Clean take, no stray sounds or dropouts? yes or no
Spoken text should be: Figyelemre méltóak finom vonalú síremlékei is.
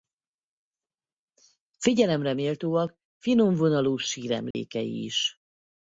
no